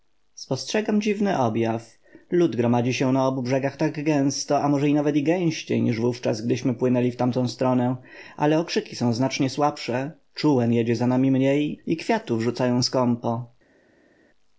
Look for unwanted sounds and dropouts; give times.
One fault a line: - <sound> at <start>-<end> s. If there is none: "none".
none